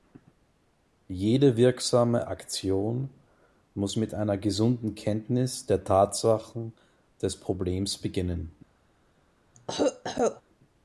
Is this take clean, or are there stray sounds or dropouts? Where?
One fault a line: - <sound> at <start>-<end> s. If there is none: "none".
- cough at 9.5-10.4 s